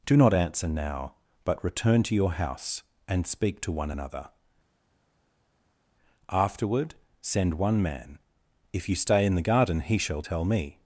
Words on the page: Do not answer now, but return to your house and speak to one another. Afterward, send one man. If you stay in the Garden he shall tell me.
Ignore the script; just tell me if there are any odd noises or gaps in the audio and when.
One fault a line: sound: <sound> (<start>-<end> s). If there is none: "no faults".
no faults